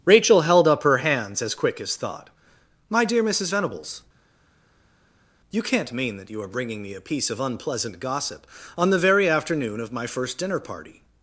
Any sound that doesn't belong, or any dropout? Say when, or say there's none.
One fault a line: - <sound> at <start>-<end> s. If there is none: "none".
none